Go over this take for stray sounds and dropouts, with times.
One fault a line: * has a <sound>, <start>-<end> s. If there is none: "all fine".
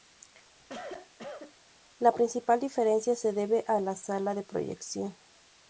* has a cough, 0.6-1.5 s